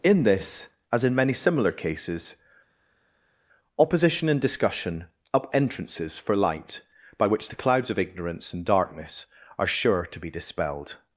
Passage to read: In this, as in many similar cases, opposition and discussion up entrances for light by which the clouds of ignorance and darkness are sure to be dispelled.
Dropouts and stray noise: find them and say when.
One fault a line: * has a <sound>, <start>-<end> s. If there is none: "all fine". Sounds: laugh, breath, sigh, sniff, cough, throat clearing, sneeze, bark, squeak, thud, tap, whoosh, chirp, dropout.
all fine